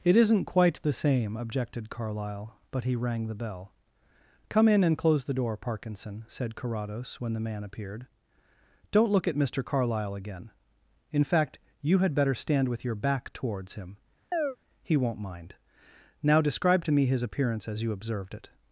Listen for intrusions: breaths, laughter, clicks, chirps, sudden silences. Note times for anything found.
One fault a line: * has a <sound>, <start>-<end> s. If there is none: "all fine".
* has a chirp, 14.3-14.6 s